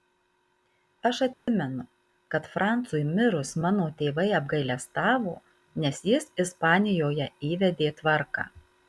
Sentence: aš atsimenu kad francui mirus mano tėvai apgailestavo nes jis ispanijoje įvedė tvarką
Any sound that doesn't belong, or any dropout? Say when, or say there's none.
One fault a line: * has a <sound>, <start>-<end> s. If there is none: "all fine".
* has a dropout, 1.3-1.5 s